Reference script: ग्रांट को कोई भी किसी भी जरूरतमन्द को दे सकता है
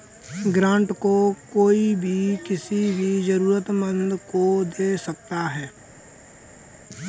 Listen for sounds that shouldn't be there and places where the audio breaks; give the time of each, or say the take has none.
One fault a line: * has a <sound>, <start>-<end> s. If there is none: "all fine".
all fine